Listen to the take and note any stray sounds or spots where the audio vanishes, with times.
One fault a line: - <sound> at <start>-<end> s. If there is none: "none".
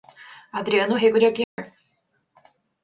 - dropout at 1.4-1.6 s